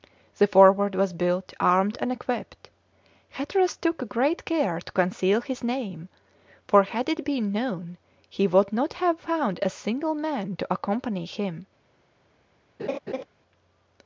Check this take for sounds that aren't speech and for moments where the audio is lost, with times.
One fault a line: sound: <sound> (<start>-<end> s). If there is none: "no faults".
sound: laugh (12.8-13.2 s)